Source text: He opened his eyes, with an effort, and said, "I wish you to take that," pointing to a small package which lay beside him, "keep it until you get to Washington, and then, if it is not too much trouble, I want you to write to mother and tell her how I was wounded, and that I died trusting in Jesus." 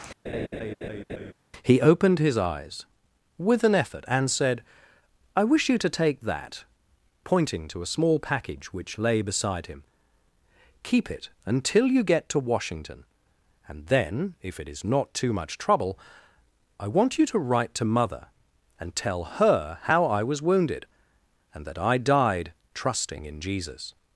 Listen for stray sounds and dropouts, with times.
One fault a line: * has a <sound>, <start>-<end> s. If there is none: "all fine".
* has a laugh, 0.3-1.3 s